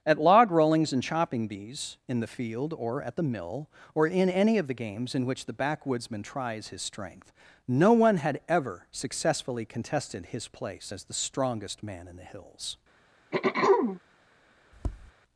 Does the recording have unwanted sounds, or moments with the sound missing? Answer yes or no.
yes